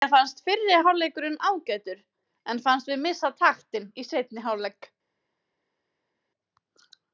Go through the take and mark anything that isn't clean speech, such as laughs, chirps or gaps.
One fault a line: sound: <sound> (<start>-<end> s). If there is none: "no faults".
no faults